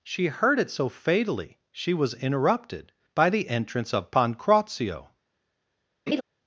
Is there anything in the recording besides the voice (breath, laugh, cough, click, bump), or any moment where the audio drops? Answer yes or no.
yes